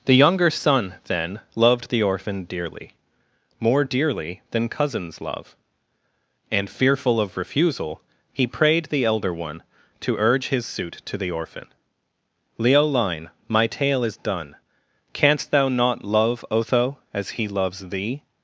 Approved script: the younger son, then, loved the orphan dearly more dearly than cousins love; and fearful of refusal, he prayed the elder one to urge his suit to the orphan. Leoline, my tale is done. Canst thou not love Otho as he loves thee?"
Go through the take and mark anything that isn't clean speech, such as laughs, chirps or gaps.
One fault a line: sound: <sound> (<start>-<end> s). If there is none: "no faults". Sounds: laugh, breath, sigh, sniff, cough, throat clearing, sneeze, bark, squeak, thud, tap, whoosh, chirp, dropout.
no faults